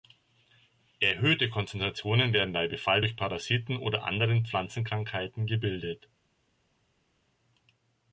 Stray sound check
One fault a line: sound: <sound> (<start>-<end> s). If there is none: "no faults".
no faults